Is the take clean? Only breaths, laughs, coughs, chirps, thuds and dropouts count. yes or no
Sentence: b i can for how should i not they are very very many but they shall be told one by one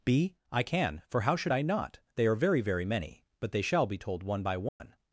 no